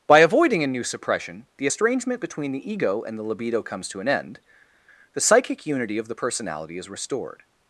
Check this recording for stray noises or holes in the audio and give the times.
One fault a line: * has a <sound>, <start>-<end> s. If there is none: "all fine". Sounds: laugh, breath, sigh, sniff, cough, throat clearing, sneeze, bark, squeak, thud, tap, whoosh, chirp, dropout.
all fine